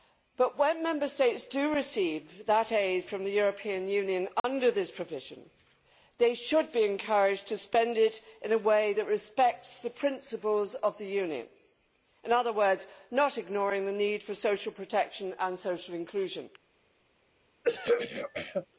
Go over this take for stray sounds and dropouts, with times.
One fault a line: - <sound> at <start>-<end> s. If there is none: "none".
- dropout at 4.4-4.4 s
- throat clearing at 17.6-18.7 s